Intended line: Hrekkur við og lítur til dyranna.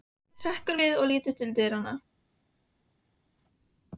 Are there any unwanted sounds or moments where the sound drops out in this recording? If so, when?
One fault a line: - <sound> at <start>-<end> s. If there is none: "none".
none